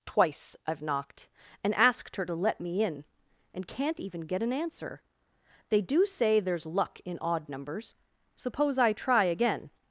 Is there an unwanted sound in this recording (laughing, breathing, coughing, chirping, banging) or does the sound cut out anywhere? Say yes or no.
no